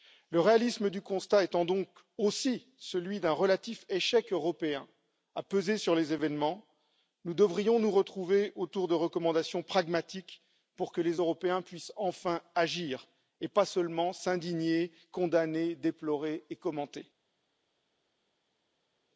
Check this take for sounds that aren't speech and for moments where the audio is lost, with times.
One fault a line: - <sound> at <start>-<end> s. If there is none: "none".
none